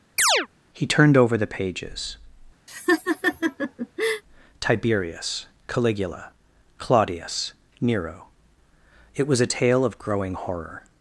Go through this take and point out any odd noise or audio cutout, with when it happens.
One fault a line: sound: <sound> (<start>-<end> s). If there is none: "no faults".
sound: chirp (0.2-0.5 s)
sound: laugh (2.7-4.2 s)